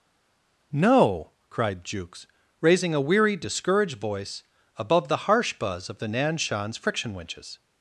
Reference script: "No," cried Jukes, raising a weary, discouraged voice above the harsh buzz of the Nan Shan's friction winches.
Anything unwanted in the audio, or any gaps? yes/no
no